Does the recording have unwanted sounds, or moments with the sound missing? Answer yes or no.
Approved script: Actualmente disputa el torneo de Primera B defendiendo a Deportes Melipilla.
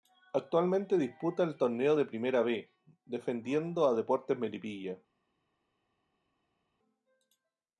no